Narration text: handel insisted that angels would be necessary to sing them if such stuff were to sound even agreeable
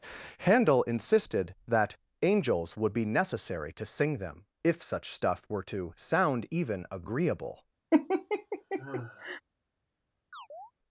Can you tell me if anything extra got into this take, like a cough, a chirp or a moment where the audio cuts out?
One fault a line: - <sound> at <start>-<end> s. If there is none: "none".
- laugh at 7.9-9.4 s
- chirp at 10.3-10.7 s